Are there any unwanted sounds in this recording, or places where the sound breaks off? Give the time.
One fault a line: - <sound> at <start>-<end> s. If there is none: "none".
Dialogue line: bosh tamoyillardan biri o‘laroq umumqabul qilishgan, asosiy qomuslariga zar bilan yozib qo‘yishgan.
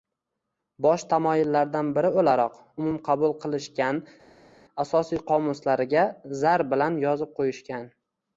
none